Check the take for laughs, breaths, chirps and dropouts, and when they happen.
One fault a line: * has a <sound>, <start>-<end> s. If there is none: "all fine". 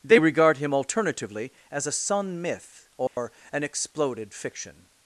* has a dropout, 3.1-3.2 s